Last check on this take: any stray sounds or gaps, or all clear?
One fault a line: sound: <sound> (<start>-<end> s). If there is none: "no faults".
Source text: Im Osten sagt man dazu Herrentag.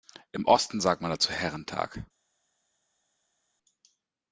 no faults